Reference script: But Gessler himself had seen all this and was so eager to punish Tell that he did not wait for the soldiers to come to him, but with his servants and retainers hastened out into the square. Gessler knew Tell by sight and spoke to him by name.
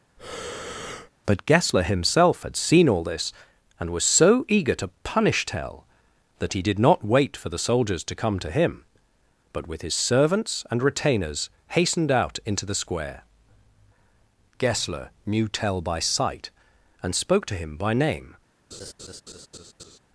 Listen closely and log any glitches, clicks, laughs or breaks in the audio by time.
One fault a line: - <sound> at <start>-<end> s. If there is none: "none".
- breath at 0.2-1.1 s
- laugh at 18.7-20.0 s